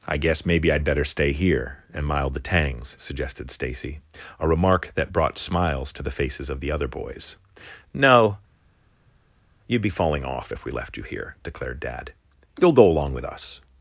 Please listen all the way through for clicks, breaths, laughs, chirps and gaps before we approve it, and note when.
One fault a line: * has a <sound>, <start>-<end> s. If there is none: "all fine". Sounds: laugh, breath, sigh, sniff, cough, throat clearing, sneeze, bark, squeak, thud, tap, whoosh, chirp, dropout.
all fine